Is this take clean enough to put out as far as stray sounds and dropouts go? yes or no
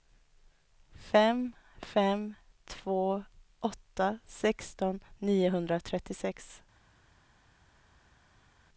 yes